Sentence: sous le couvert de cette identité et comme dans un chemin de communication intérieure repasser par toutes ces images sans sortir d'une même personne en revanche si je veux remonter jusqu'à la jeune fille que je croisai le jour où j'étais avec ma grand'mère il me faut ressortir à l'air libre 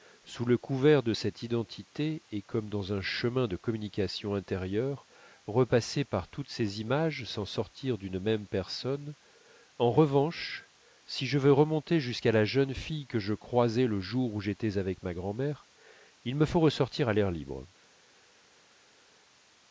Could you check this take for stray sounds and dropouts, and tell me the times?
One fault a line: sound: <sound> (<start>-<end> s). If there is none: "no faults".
no faults